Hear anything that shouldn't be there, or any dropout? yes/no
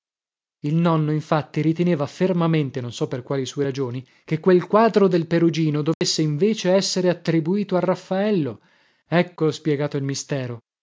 yes